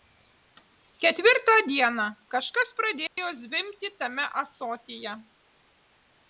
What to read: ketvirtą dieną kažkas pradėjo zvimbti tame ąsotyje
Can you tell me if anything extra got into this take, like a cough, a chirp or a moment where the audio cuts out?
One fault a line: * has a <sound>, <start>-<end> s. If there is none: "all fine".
* has a dropout, 3.1-3.2 s